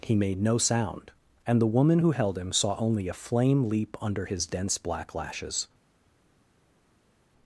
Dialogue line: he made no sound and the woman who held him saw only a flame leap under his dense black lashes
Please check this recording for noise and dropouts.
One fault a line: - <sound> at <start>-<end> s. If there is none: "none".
none